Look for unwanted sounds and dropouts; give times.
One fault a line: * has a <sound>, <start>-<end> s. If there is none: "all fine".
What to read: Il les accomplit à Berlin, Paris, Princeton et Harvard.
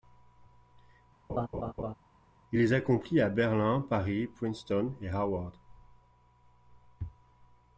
* has a laugh, 1.3-1.9 s